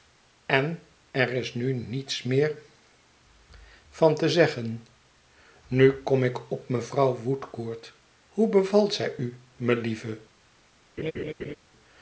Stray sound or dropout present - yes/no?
yes